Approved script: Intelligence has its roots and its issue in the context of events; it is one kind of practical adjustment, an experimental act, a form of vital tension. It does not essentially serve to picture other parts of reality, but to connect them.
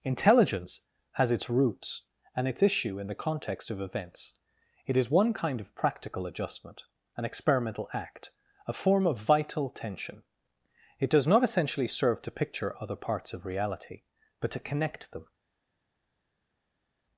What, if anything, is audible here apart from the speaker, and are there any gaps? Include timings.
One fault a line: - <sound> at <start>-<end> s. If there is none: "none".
none